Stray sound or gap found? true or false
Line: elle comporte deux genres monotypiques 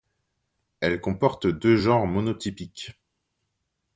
false